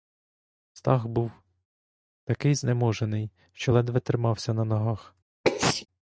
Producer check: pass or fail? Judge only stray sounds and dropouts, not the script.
fail